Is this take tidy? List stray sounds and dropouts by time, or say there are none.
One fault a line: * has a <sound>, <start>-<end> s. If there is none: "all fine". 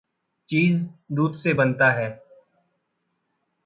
all fine